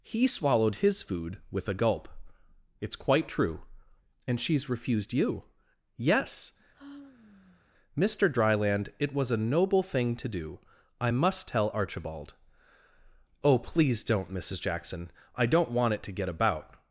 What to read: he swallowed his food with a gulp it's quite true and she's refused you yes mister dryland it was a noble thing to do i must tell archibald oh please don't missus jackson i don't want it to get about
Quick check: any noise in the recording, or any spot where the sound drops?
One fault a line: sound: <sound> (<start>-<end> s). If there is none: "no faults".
sound: sigh (6.7-7.6 s)